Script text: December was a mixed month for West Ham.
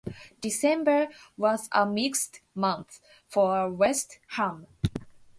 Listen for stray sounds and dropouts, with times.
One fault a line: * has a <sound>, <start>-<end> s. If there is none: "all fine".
all fine